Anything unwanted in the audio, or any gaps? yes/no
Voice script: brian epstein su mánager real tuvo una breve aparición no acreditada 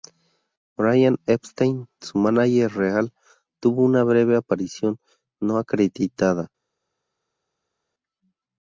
no